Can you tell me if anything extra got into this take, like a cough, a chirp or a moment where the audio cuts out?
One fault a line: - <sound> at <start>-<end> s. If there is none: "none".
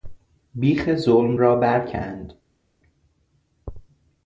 none